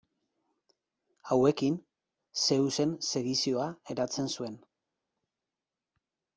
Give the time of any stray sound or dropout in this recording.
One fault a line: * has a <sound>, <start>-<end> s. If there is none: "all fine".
all fine